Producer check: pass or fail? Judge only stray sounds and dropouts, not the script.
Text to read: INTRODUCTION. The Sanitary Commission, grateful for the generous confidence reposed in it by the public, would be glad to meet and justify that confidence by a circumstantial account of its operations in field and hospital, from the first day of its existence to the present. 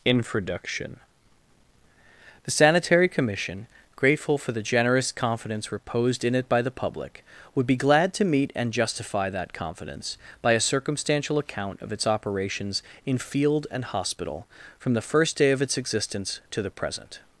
pass